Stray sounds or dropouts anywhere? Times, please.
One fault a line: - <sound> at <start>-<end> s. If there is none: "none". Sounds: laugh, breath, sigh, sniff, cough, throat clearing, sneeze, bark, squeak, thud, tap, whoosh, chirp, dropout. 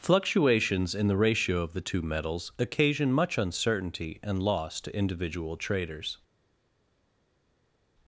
none